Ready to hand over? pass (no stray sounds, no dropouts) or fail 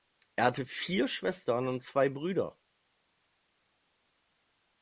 pass